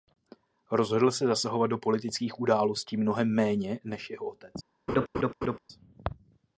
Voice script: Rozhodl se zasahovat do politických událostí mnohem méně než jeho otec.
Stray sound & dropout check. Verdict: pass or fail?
fail